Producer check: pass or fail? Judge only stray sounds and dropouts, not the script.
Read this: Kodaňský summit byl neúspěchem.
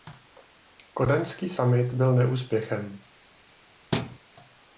fail